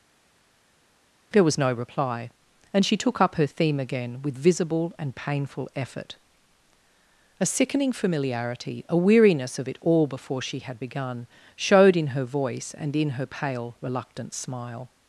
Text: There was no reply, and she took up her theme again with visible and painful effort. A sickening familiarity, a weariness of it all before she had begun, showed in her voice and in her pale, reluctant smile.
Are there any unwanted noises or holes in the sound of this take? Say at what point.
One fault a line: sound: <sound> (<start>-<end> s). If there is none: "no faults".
no faults